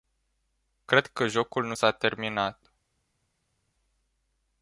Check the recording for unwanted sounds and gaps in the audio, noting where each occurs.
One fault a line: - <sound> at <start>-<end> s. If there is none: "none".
none